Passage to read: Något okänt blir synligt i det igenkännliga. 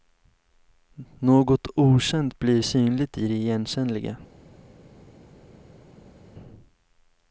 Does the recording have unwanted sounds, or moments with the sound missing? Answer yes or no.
no